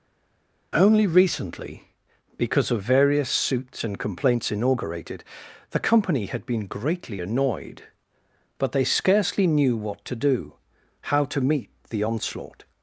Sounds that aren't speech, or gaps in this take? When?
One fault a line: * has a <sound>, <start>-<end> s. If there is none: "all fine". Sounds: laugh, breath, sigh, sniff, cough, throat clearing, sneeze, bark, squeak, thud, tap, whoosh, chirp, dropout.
all fine